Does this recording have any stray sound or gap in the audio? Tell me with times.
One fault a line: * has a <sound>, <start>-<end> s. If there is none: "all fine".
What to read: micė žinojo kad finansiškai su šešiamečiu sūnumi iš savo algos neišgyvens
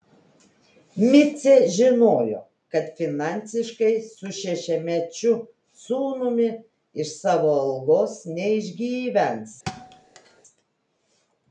* has a thud, 9.7-10.4 s